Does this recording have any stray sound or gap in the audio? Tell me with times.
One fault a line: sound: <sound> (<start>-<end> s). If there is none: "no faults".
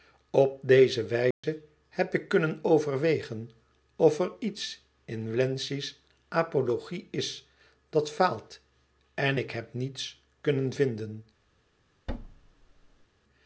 sound: dropout (1.3-1.4 s)
sound: thud (12.1-13.1 s)